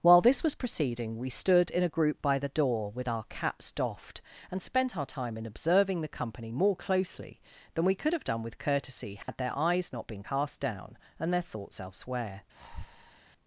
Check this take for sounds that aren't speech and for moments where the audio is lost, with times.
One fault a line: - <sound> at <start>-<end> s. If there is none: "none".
- dropout at 9.2-9.3 s
- breath at 12.6-13.2 s